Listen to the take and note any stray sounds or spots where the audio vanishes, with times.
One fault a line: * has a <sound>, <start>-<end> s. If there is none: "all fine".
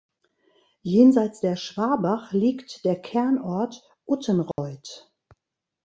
* has a dropout, 4.5-4.6 s